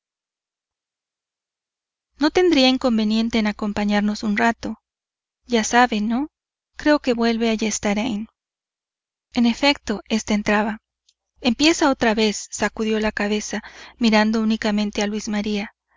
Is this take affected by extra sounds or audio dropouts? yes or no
no